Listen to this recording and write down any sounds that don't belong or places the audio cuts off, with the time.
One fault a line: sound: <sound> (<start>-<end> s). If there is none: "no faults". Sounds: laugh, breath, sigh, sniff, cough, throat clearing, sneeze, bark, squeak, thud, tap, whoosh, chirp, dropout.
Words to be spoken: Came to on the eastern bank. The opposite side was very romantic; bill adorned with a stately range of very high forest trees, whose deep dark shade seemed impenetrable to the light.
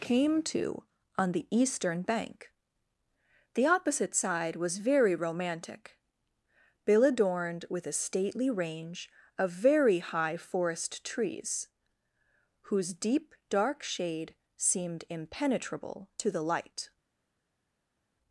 no faults